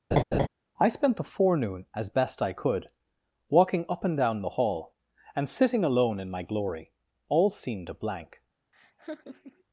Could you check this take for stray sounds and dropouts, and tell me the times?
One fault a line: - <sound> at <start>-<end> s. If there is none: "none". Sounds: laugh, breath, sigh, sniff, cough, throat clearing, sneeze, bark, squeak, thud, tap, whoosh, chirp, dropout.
- laugh at 0.1-0.5 s
- laugh at 8.7-9.6 s